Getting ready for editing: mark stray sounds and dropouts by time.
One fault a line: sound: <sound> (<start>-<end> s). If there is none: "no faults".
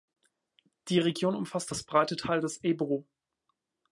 no faults